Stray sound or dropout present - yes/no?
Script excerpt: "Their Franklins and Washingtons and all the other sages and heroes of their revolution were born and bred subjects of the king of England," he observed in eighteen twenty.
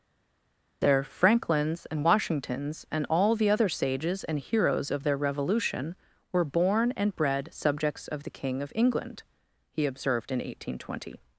no